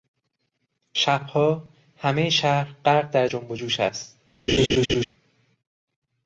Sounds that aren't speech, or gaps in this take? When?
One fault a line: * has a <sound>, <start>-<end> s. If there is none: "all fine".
* has a laugh, 4.5-5.0 s